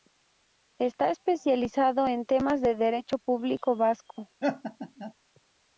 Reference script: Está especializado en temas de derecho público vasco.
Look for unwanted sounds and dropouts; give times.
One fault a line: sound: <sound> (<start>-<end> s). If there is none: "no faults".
sound: laugh (4.4-5.1 s)